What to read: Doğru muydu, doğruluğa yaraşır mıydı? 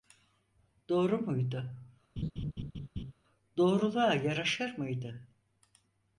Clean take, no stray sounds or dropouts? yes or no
no